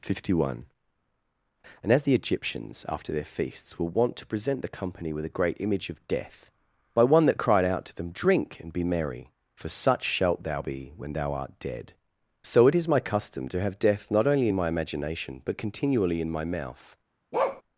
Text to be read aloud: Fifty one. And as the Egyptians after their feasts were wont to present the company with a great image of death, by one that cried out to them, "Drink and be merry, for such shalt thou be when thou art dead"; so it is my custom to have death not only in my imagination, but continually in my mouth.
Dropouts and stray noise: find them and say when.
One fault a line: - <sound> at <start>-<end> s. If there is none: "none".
- bark at 17.3-17.6 s